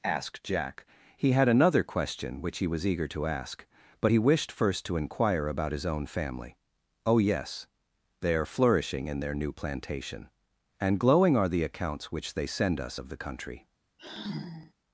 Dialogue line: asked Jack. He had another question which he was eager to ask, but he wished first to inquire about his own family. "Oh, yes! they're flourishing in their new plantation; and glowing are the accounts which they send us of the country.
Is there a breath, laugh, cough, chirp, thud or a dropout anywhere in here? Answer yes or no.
yes